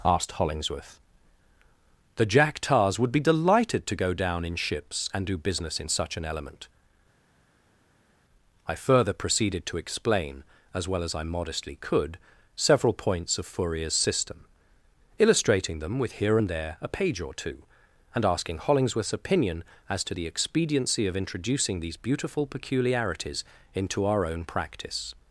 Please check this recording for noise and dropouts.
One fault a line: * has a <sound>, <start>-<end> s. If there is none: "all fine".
all fine